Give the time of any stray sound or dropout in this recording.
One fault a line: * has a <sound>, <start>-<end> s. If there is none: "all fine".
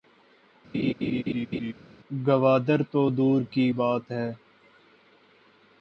* has a laugh, 0.7-1.7 s